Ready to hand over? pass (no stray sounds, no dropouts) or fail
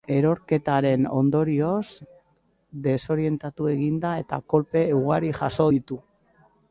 pass